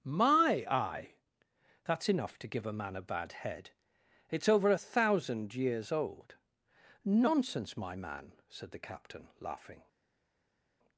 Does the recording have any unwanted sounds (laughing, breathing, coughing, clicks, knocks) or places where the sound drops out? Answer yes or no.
no